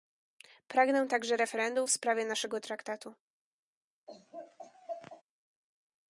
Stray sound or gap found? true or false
true